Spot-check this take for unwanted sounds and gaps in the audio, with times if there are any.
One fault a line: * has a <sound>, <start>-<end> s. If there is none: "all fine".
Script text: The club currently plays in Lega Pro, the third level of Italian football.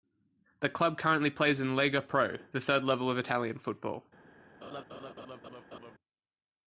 * has a laugh, 4.6-6.0 s